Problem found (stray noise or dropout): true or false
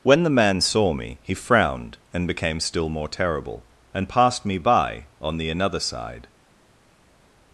false